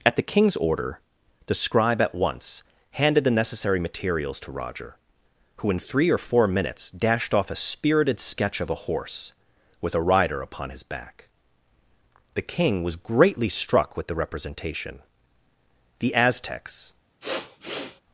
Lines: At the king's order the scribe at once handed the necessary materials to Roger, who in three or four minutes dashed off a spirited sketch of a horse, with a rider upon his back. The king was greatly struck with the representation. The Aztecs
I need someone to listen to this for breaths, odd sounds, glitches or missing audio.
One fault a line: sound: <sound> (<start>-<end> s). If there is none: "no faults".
sound: sniff (17.2-18.0 s)